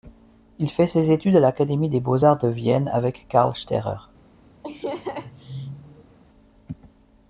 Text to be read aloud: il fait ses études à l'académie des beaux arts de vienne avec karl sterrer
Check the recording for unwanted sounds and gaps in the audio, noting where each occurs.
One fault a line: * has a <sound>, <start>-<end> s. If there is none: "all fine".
* has a laugh, 4.6-6.2 s